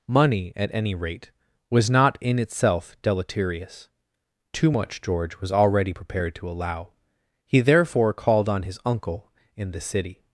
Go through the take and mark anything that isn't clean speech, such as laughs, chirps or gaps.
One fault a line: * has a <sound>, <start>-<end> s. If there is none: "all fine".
all fine